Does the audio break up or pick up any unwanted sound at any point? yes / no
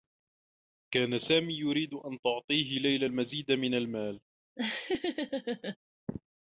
yes